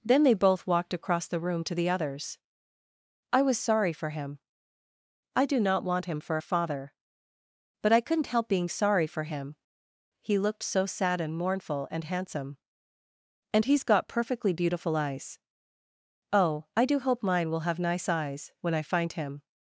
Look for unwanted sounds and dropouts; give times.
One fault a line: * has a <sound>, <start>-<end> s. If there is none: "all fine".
all fine